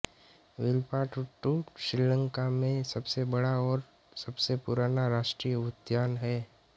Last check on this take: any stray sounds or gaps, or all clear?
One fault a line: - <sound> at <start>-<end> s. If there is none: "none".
none